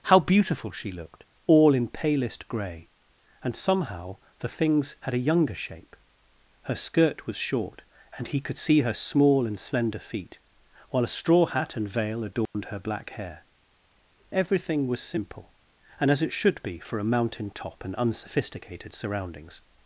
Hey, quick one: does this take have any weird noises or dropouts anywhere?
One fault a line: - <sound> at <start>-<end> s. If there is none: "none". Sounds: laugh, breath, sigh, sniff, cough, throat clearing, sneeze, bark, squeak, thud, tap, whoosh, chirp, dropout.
- dropout at 12.5-12.5 s